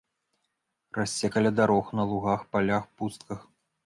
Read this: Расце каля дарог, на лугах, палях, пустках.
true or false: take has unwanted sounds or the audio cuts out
false